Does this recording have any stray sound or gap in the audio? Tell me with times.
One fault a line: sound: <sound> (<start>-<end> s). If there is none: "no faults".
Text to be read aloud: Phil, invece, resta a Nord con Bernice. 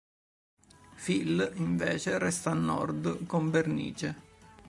no faults